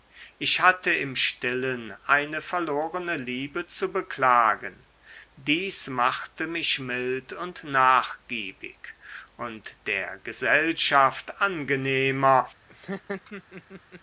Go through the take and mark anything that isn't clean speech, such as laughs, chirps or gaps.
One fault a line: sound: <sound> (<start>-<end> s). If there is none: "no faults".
sound: laugh (12.7-14.0 s)